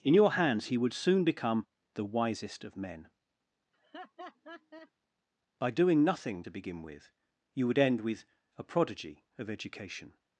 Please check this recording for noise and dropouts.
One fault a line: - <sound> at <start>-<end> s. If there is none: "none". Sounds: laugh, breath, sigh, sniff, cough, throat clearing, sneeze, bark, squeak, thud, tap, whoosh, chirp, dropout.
- laugh at 3.7-4.9 s